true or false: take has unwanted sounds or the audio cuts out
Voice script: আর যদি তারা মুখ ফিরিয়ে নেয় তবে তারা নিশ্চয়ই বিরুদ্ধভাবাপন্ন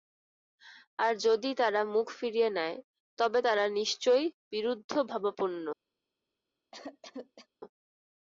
true